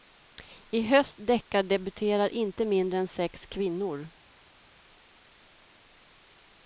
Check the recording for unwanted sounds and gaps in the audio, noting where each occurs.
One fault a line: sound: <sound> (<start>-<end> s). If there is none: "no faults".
no faults